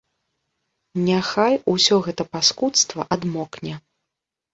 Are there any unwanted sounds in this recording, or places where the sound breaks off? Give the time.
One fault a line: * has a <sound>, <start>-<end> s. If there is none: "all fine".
all fine